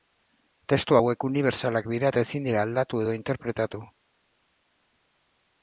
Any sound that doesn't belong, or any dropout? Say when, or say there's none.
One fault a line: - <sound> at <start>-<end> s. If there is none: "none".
none